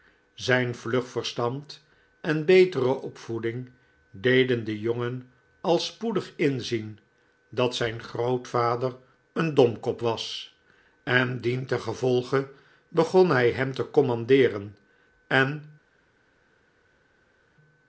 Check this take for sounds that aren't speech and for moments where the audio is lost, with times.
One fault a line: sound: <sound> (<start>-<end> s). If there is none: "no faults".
no faults